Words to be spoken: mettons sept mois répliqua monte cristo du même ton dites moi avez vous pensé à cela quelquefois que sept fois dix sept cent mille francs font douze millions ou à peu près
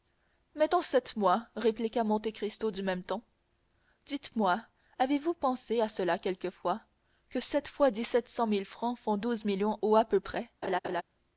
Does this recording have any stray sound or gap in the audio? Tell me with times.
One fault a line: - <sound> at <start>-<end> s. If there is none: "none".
- laugh at 10.6-11.0 s